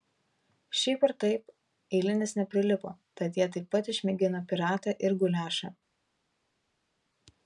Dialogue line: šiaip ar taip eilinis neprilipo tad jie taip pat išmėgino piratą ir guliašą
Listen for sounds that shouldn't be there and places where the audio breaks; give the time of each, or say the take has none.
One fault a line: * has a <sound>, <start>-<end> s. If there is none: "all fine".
all fine